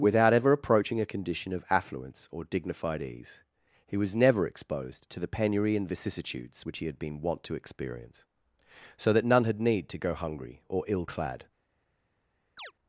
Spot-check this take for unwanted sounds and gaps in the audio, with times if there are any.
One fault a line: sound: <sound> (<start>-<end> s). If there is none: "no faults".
sound: chirp (12.6-12.7 s)